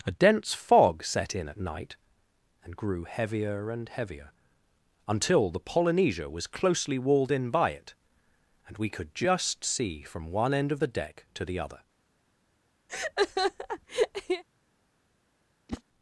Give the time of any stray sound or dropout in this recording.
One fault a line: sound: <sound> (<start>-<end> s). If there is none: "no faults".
sound: laugh (12.9-14.4 s)
sound: whoosh (15.7-15.8 s)